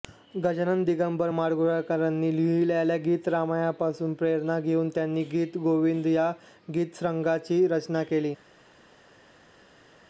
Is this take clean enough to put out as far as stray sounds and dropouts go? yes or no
yes